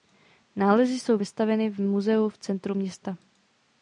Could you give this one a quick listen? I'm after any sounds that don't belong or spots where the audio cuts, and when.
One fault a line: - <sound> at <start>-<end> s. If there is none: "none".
none